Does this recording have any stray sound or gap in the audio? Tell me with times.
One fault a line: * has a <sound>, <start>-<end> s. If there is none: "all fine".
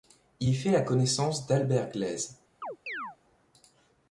* has a chirp, 2.6-3.2 s